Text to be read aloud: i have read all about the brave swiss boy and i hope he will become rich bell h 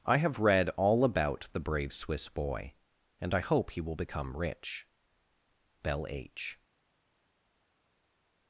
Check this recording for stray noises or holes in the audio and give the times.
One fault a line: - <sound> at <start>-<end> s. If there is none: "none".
none